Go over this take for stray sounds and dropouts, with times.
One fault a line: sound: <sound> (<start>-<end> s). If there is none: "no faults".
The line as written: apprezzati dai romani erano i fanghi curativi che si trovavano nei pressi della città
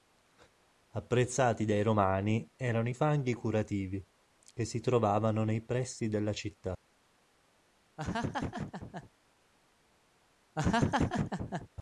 sound: laugh (8.0-9.1 s)
sound: laugh (10.6-11.7 s)